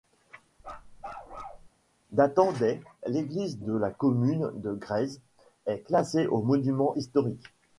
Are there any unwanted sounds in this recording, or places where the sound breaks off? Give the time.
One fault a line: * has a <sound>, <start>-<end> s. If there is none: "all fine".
* has a bark, 0.6-1.7 s